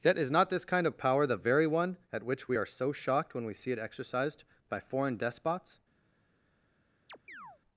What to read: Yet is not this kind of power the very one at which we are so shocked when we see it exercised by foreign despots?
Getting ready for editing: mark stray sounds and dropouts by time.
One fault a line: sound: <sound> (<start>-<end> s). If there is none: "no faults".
sound: chirp (7.1-7.6 s)